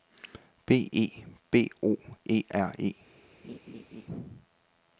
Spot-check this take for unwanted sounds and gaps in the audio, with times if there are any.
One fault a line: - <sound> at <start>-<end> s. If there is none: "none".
- laugh at 3.4-4.1 s